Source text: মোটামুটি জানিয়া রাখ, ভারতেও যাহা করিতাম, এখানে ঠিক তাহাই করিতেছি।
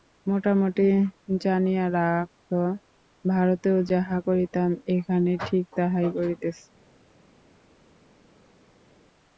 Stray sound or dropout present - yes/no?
no